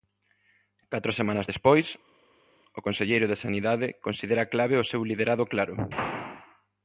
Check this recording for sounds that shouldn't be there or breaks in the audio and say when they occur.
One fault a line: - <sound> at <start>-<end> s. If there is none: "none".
none